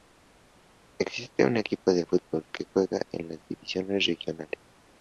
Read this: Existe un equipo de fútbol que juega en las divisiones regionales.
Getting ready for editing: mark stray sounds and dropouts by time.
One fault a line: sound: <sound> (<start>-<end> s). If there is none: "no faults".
no faults